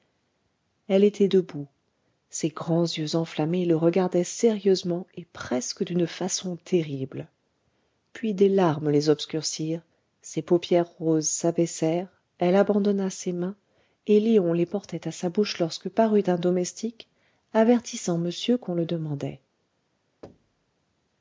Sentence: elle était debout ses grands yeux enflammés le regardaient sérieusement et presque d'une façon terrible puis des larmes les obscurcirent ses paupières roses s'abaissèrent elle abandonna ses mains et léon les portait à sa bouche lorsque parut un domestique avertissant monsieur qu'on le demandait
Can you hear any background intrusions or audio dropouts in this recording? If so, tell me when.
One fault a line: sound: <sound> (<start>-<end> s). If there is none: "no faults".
sound: thud (20.2-20.7 s)